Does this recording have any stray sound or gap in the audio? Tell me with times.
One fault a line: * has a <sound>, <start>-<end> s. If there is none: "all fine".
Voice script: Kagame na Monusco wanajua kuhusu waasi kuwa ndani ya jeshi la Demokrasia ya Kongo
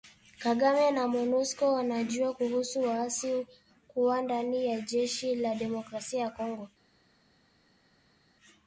all fine